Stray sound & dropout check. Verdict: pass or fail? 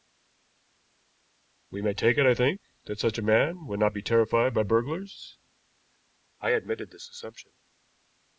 pass